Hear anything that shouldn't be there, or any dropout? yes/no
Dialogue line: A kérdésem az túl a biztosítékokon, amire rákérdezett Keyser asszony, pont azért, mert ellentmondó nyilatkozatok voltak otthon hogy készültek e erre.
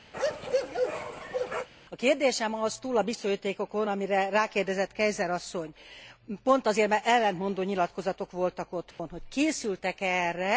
yes